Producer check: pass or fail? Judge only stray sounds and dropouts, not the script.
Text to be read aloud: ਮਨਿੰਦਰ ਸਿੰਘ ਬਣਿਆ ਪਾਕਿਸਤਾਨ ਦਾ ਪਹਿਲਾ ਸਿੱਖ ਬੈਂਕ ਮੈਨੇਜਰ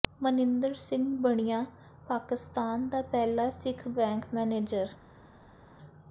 pass